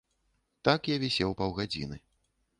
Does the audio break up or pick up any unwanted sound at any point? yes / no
no